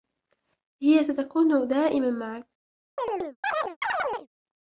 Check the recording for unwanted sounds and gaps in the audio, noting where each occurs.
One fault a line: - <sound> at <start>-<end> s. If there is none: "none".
- chirp at 3.0-4.3 s